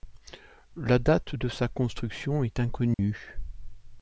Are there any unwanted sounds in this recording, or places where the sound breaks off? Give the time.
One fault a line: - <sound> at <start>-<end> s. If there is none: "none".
- dropout at 2.9-3.0 s